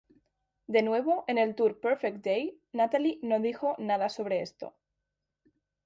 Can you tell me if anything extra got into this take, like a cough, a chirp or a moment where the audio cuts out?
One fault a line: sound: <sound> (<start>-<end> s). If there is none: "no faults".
no faults